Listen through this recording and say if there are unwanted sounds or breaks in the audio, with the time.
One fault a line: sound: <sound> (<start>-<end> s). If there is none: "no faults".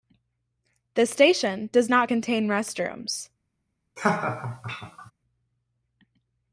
sound: laugh (4.0-5.1 s)